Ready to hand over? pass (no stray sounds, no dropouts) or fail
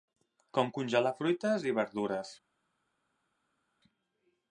pass